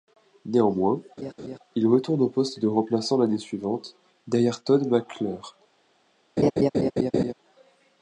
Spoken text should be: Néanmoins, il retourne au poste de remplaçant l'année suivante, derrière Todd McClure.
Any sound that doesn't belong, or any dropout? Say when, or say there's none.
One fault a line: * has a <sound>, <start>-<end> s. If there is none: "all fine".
* has a laugh, 1.2-1.6 s
* has a laugh, 6.4-7.3 s